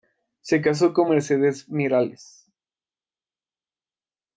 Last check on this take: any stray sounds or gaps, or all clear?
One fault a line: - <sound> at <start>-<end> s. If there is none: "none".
none